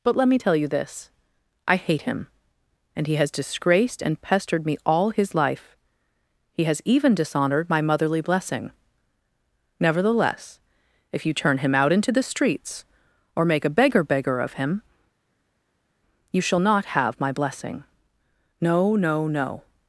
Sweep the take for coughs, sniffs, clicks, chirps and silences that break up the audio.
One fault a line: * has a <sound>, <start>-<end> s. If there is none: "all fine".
all fine